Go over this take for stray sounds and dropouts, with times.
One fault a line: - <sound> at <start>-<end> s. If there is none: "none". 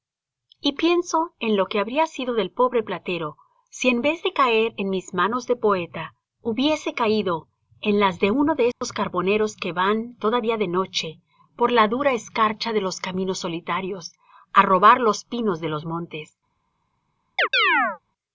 - dropout at 8.7-8.8 s
- chirp at 17.4-18.0 s